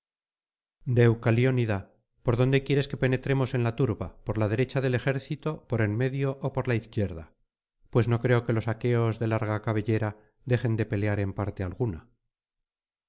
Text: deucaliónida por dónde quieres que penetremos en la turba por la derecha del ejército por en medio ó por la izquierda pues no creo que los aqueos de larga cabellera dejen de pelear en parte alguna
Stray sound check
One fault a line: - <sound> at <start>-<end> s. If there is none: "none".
none